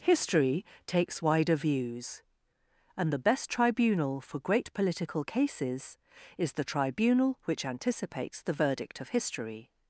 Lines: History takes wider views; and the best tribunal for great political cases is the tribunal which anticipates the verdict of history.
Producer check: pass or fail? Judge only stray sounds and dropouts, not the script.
pass